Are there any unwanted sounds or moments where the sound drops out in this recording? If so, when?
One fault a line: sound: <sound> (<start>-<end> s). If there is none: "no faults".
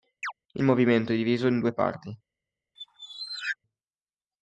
sound: chirp (0.2-0.3 s)
sound: squeak (2.8-3.6 s)